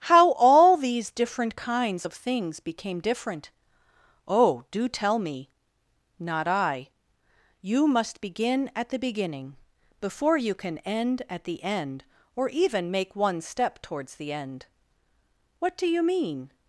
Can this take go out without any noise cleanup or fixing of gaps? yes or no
yes